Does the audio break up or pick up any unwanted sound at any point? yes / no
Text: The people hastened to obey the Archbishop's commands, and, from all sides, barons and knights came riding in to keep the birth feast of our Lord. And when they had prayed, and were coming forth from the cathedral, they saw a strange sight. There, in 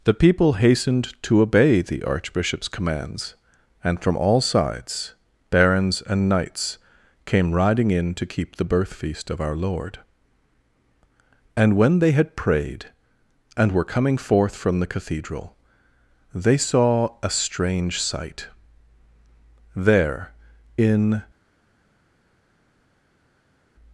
no